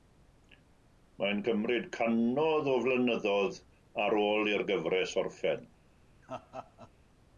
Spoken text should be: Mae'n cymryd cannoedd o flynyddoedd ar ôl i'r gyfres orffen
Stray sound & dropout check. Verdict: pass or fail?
fail